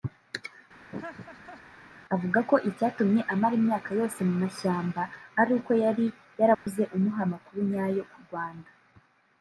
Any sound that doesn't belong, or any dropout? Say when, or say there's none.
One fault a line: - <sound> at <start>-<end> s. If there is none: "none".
- laugh at 0.9-1.6 s
- dropout at 6.5-6.7 s